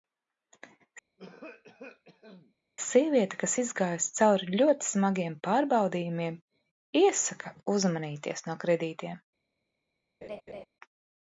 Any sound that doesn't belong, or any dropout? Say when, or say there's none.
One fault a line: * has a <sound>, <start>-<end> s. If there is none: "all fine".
* has a cough, 1.2-2.5 s
* has a laugh, 10.2-10.7 s